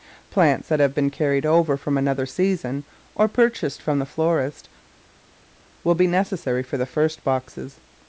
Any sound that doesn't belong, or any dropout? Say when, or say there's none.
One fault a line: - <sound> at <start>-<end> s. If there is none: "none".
none